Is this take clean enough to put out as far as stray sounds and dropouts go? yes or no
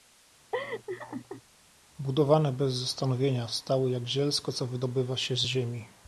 no